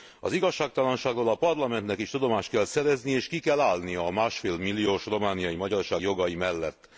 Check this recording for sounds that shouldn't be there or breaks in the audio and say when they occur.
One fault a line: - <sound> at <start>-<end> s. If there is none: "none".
none